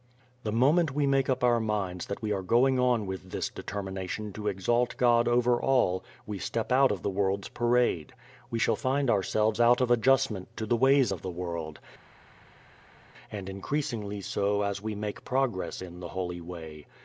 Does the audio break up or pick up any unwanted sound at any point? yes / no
no